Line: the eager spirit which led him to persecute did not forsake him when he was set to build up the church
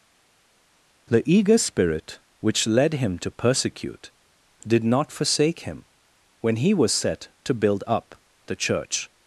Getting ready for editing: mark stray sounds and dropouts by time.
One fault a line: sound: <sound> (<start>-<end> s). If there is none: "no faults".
no faults